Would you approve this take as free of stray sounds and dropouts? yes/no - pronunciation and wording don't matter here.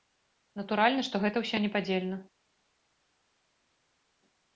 yes